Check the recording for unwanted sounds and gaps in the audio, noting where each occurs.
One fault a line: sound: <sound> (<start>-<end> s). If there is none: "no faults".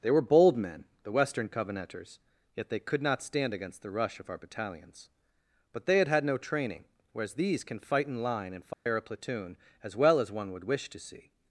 sound: dropout (8.7-8.9 s)